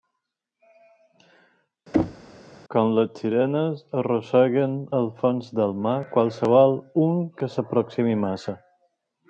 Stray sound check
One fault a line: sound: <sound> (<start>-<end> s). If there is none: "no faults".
sound: thud (1.9-2.3 s)